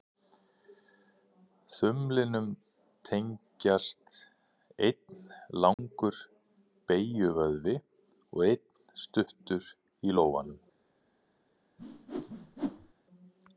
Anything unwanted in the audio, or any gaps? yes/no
yes